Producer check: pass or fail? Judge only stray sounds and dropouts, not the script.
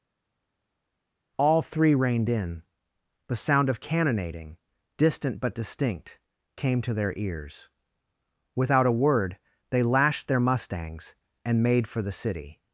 pass